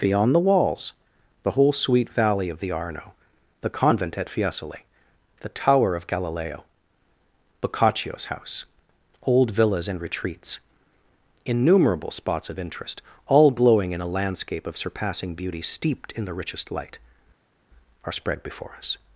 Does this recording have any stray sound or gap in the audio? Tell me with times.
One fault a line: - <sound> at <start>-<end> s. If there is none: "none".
none